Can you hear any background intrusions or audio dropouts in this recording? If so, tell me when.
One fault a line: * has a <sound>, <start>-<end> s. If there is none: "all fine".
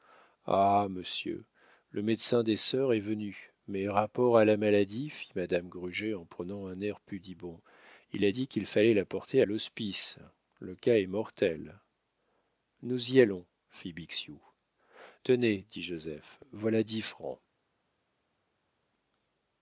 all fine